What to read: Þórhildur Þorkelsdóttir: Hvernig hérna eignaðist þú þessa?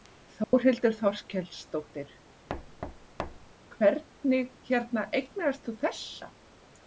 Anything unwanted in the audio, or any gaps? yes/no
yes